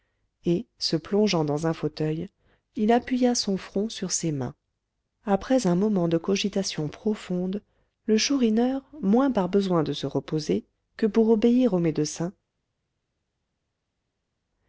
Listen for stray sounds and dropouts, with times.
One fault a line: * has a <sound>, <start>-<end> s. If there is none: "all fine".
all fine